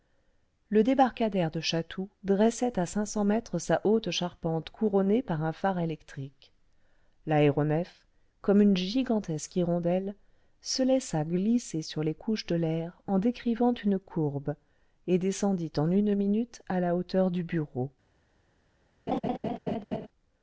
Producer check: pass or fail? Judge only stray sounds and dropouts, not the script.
fail